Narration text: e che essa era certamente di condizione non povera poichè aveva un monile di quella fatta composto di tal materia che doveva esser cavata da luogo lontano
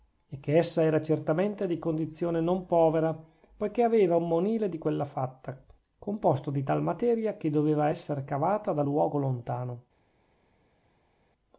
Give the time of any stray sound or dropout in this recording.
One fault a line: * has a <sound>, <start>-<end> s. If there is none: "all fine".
all fine